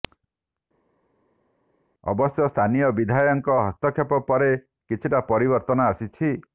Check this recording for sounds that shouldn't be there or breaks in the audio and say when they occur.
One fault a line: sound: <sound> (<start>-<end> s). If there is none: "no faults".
no faults